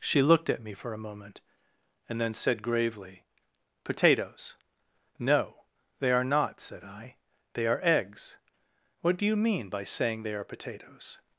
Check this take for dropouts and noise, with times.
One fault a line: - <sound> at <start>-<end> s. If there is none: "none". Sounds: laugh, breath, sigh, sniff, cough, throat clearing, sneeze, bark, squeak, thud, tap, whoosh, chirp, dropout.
none